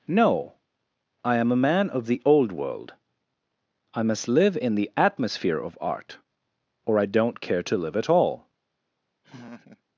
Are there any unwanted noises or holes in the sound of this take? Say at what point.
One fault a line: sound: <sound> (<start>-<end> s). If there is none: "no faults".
sound: laugh (9.2-9.8 s)